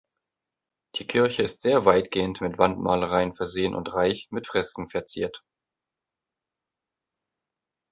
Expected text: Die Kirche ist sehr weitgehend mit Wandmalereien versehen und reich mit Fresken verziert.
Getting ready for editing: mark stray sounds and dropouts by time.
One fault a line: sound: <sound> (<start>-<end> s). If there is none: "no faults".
no faults